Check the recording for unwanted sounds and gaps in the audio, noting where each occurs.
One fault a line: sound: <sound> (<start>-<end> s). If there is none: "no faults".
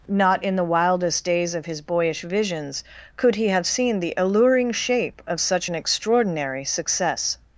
no faults